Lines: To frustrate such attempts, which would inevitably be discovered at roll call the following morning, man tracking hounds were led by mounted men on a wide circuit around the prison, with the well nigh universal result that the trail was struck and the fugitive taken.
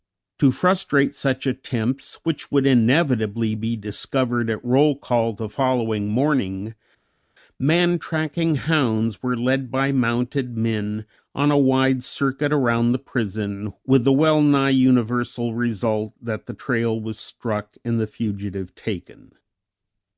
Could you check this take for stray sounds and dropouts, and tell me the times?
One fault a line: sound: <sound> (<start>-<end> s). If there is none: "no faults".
no faults